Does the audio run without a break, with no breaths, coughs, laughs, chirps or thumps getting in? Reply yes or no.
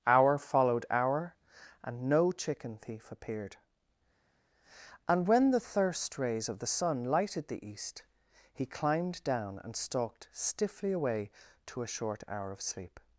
yes